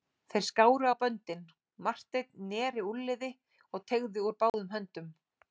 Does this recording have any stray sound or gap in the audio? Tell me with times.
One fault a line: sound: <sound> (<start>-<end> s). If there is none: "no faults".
sound: dropout (4.5-4.5 s)